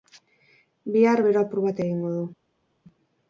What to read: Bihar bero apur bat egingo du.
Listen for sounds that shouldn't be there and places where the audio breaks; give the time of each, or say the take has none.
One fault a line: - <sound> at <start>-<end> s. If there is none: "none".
none